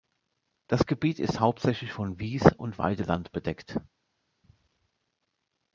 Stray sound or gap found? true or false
false